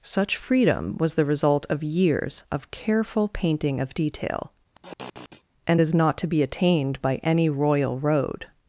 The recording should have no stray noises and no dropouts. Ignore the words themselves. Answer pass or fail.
fail